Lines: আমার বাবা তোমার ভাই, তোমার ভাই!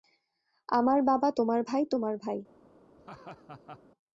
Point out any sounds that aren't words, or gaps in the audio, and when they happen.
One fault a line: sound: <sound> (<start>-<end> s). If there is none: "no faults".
sound: laugh (3.0-3.8 s)